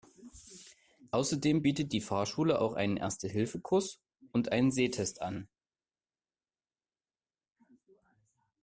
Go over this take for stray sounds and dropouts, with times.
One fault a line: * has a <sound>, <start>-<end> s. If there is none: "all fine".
all fine